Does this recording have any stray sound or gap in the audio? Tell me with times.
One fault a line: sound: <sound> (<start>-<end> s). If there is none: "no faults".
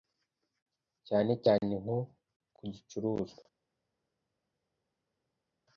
no faults